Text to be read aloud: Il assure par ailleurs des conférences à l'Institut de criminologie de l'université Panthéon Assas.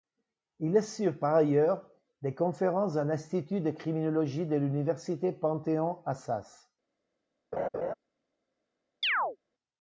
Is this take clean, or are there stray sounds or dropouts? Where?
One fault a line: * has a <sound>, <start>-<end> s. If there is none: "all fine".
* has a laugh, 7.5-7.9 s
* has a chirp, 9.0-9.4 s